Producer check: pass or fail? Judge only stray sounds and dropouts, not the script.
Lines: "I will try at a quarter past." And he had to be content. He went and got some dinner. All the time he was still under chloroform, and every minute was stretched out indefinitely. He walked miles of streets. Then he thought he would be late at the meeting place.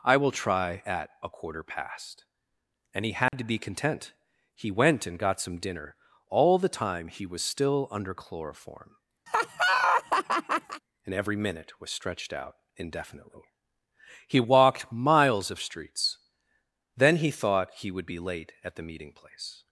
fail